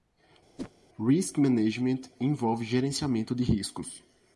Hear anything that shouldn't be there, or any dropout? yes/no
yes